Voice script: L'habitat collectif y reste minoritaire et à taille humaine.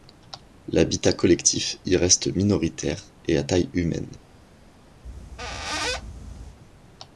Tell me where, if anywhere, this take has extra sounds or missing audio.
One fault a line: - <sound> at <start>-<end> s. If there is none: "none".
- squeak at 5.0-6.6 s